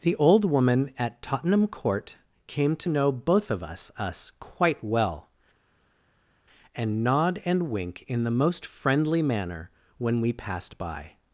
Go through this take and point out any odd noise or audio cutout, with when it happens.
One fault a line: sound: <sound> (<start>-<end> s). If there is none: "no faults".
no faults